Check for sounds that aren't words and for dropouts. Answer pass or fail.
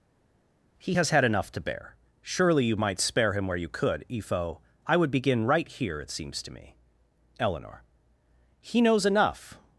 pass